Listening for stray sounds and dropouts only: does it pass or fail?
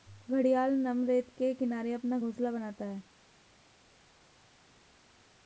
pass